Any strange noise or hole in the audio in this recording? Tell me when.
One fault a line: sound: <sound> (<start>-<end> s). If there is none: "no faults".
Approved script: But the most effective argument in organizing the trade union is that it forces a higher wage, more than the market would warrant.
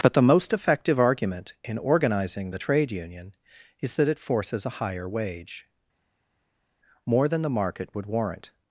no faults